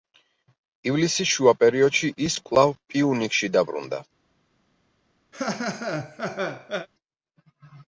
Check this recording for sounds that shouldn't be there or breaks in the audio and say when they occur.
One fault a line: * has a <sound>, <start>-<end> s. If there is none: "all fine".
* has a laugh, 5.3-6.9 s